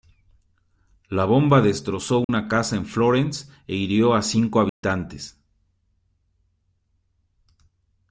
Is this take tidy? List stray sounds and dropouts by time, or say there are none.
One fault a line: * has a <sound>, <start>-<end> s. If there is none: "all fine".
* has a dropout, 2.2-2.3 s
* has a dropout, 4.7-4.8 s